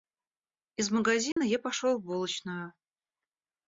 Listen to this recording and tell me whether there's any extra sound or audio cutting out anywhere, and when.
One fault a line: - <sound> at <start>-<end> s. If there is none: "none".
- dropout at 1.3-1.4 s